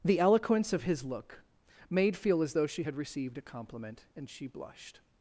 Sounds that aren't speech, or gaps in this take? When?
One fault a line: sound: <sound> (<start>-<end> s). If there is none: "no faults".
no faults